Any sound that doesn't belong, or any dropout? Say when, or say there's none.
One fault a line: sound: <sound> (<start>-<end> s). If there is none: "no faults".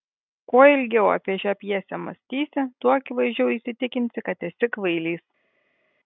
no faults